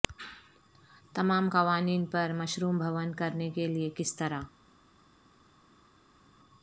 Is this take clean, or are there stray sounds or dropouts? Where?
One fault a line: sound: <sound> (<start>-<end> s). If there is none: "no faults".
no faults